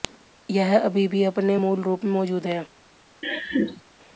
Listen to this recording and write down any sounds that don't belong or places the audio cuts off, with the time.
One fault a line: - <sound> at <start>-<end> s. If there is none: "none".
- laugh at 3.2-3.8 s